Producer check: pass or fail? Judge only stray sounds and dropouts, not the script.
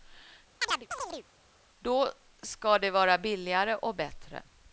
fail